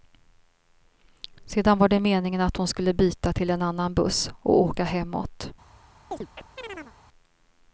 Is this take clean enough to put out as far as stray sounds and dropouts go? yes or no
no